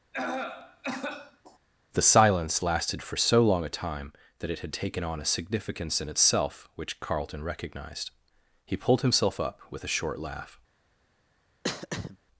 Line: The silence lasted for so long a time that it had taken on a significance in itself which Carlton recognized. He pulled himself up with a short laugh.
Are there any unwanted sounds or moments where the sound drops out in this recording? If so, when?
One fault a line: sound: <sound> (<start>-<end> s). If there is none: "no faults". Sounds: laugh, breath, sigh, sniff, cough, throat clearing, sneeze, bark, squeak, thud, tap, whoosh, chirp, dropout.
sound: cough (0.1-1.6 s)
sound: throat clearing (11.6-12.2 s)